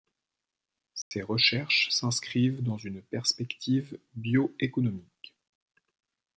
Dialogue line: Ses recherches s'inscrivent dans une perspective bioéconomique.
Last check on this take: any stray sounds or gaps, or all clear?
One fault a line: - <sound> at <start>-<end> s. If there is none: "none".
- dropout at 1.0-1.1 s